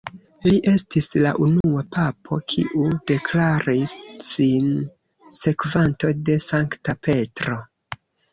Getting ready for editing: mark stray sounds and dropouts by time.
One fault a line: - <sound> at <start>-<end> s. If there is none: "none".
- dropout at 1.6-1.6 s